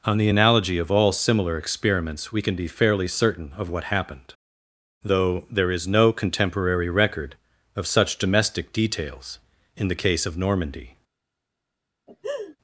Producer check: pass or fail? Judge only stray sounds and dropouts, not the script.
fail